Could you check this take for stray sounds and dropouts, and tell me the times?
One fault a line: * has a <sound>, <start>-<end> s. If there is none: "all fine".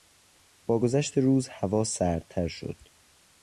all fine